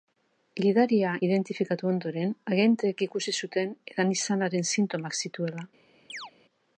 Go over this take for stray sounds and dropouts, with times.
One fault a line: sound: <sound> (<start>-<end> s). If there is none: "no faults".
sound: chirp (6.1-6.3 s)